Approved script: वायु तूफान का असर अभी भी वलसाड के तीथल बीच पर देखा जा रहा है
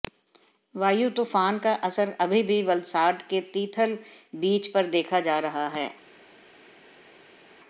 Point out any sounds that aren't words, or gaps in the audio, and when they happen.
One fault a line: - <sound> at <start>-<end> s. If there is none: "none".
none